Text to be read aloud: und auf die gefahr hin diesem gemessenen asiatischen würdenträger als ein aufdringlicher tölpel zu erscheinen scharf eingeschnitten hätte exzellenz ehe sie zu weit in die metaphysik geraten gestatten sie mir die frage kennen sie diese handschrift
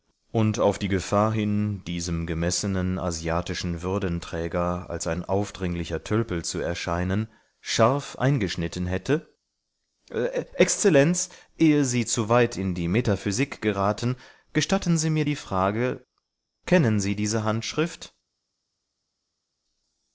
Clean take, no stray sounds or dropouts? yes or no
yes